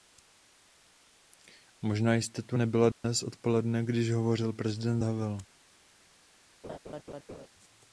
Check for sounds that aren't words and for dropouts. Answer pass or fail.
fail